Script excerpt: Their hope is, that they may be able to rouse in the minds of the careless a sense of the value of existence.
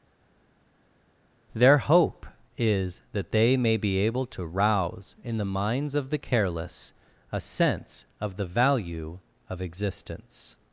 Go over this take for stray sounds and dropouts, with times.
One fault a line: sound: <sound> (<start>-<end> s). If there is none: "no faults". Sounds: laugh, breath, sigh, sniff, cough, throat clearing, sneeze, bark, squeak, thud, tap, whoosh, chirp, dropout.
no faults